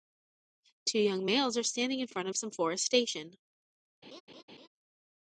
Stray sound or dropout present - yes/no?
yes